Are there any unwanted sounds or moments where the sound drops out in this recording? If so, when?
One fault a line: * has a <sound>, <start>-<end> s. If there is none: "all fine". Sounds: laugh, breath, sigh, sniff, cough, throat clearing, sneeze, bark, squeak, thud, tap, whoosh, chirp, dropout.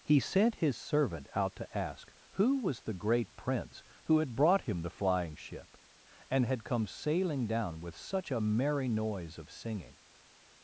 all fine